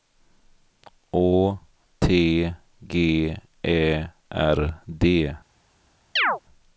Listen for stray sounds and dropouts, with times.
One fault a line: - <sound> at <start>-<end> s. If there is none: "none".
- chirp at 6.2-6.4 s